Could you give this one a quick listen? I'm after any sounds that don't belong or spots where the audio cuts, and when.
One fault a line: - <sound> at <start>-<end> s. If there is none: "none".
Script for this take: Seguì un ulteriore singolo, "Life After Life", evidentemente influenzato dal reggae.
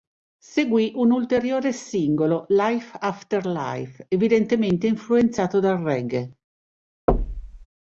- thud at 7.1-7.7 s